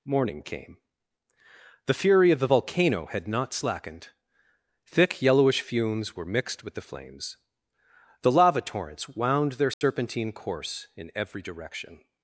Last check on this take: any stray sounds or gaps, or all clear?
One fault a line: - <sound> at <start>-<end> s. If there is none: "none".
- dropout at 9.7-9.8 s